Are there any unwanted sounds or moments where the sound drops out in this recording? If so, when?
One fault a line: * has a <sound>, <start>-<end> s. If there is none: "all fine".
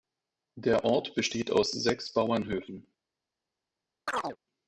* has a chirp, 4.1-4.4 s